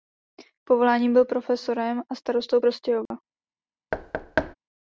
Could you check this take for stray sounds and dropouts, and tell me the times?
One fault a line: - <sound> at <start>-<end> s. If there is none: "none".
- dropout at 3.1-3.1 s
- thud at 3.9-4.5 s